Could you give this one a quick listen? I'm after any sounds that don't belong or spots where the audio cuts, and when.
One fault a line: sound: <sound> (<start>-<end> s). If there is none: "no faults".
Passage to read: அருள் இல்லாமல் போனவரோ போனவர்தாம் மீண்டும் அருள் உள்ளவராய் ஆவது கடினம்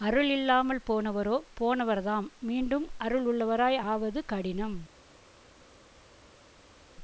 no faults